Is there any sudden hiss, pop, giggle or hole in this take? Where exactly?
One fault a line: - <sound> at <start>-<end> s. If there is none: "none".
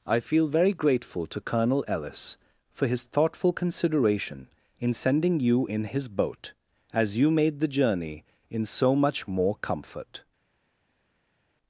none